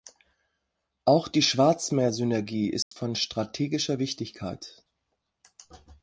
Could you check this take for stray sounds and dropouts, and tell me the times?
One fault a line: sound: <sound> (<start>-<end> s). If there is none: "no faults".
sound: dropout (2.8-2.9 s)